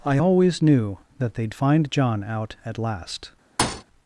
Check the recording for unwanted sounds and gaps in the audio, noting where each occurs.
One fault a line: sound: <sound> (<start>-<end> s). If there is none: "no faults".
sound: thud (3.6-3.8 s)